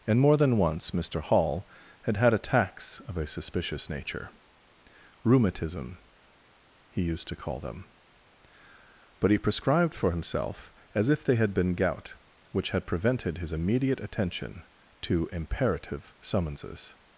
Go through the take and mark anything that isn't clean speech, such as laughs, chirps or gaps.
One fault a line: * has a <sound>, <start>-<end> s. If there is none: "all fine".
all fine